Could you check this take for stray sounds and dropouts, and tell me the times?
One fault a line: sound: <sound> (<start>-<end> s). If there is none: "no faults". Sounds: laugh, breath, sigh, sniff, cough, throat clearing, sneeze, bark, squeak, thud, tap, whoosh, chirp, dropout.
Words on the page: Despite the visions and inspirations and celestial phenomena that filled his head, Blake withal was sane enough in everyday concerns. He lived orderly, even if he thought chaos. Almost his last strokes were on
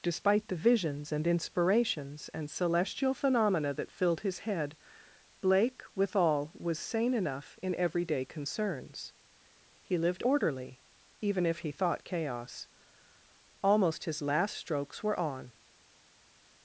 no faults